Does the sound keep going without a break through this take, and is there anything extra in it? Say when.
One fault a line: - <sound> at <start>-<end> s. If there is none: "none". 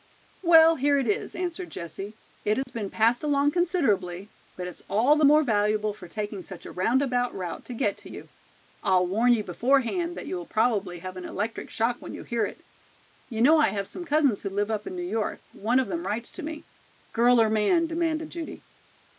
- dropout at 2.6-2.7 s